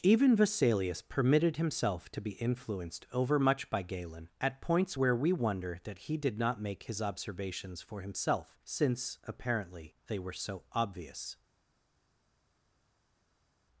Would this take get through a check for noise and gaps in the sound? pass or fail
pass